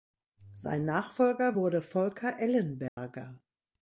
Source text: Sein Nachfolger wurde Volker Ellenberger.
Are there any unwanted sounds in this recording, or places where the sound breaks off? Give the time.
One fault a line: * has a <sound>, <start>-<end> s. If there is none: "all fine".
* has a dropout, 2.9-3.0 s